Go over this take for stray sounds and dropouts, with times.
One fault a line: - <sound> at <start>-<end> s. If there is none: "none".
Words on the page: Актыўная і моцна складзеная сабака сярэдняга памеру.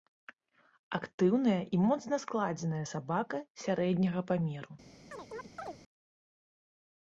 - chirp at 5.1-5.8 s